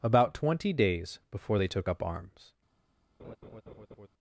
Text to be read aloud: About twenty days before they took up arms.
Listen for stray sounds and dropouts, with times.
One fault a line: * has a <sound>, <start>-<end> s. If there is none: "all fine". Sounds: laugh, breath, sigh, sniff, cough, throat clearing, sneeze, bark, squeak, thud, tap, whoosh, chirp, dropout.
* has a laugh, 3.2-4.1 s